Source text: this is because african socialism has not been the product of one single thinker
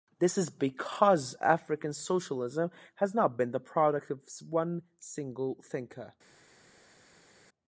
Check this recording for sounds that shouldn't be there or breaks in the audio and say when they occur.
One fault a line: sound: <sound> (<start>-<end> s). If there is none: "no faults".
no faults